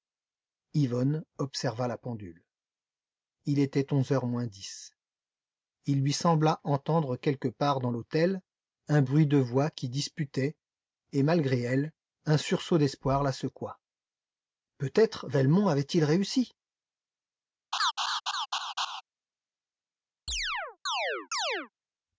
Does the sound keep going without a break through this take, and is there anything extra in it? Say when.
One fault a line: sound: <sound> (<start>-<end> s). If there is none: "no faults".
sound: laugh (17.7-19.0 s)
sound: chirp (20.3-21.7 s)